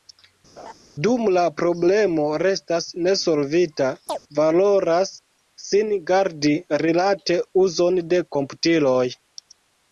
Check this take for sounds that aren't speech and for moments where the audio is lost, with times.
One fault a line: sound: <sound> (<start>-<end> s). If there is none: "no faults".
sound: laugh (0.6-0.7 s)
sound: chirp (4.1-4.2 s)